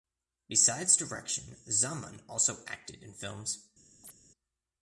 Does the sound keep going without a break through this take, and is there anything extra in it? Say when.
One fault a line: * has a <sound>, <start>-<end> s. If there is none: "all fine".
* has a chirp, 4.0-4.1 s